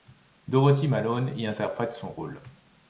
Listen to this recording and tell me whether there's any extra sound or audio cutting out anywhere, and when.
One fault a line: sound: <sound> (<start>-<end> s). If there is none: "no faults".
no faults